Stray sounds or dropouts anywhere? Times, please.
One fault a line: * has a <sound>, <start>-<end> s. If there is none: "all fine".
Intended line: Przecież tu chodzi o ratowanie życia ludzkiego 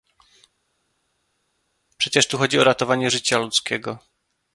all fine